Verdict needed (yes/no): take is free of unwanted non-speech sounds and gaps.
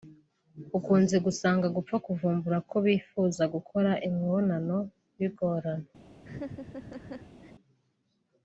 no